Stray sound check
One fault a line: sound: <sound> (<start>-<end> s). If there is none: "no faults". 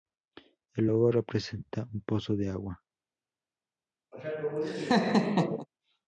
sound: laugh (4.1-5.7 s)